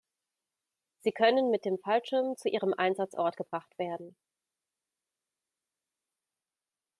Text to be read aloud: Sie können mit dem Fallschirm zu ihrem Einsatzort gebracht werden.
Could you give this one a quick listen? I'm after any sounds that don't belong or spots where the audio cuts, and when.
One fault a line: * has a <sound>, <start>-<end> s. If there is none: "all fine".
all fine